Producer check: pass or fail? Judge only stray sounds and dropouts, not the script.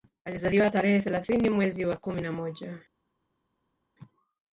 pass